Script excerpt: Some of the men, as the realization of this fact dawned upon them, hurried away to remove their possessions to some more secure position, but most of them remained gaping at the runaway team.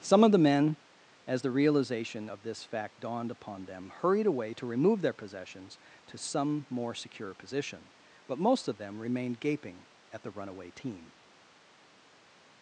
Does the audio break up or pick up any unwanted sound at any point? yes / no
no